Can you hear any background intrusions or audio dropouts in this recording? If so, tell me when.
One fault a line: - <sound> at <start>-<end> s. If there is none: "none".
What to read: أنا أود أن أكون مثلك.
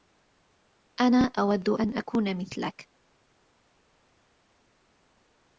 none